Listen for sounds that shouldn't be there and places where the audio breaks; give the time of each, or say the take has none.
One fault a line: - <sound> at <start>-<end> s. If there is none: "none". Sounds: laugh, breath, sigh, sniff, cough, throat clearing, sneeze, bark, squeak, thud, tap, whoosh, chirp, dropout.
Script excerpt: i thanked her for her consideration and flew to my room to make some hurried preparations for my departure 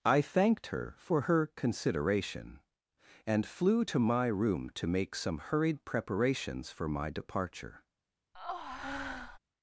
- breath at 8.3-9.4 s